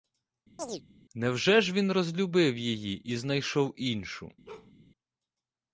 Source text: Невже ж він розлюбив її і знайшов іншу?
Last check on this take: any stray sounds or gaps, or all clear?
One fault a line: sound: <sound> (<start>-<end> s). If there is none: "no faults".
sound: chirp (0.6-0.8 s)
sound: bark (4.5-4.7 s)